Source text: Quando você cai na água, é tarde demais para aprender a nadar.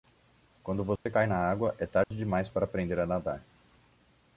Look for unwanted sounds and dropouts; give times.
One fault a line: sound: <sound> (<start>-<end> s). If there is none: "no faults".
sound: dropout (1.0-1.1 s)
sound: dropout (2.0-2.1 s)